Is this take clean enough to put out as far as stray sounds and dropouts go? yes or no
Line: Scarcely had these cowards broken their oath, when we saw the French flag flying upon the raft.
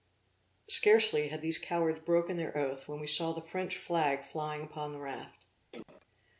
no